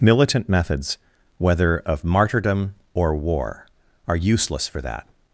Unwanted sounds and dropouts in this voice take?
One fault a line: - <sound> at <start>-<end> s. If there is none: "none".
none